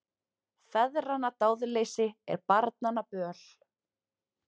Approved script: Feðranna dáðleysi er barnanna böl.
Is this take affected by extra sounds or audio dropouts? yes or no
no